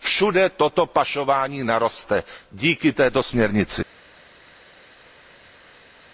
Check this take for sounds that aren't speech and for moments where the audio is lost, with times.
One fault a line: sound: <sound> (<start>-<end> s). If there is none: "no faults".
no faults